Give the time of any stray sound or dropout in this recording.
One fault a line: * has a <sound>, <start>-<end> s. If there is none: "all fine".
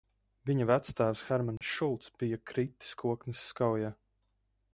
* has a dropout, 1.6-1.6 s